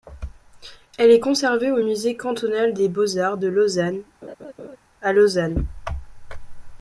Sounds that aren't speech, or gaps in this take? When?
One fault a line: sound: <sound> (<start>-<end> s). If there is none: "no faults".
sound: laugh (4.2-4.8 s)